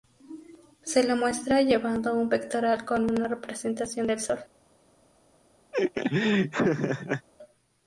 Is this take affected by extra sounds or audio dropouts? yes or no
yes